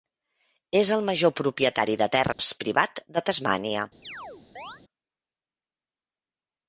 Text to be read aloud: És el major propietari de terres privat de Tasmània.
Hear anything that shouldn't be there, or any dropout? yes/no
yes